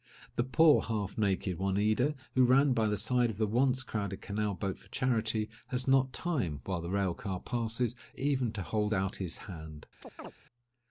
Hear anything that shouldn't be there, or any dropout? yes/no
yes